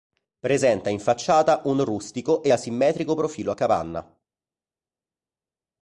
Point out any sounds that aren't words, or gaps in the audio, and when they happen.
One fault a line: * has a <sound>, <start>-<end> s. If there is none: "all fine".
all fine